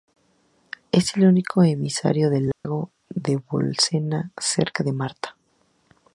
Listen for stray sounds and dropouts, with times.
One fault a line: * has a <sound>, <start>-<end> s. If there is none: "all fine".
* has a dropout, 2.5-2.6 s